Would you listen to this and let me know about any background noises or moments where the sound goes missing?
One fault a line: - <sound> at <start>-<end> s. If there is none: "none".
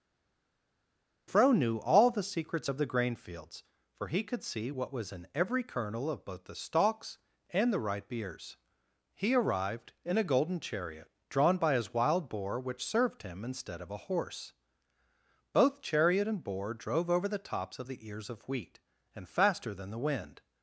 none